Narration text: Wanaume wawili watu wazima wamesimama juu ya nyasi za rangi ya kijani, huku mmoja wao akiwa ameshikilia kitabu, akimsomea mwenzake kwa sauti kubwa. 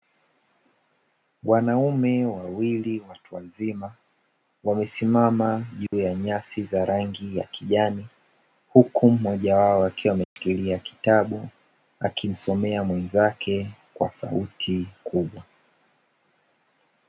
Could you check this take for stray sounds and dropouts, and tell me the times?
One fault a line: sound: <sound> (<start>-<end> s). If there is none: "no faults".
sound: dropout (5.9-5.9 s)
sound: dropout (10.2-10.4 s)